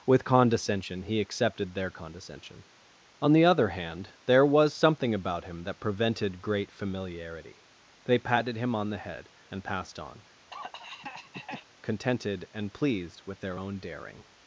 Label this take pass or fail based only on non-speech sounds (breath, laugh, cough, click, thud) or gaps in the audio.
fail